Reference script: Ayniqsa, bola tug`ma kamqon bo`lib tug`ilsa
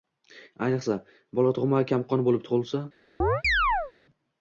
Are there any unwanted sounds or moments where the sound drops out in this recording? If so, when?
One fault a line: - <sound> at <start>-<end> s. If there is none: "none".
- chirp at 3.2-3.9 s